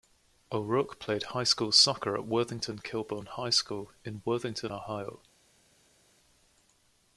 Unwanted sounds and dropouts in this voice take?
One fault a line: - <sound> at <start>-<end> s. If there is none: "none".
none